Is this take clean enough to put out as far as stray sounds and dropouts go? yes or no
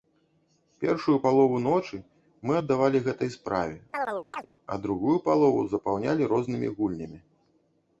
no